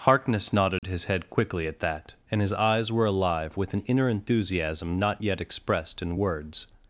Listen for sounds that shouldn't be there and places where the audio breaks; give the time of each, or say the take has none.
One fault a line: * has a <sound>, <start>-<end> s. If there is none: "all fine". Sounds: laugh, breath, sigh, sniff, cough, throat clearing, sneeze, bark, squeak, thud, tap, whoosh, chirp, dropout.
* has a dropout, 0.8-0.8 s